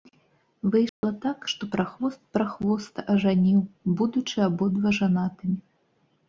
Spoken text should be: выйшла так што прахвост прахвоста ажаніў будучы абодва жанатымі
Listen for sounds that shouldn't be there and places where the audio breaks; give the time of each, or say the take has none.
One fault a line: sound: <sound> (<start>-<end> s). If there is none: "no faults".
sound: dropout (0.9-1.0 s)